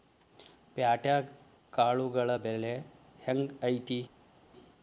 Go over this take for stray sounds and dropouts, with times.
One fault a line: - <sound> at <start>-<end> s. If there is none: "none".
none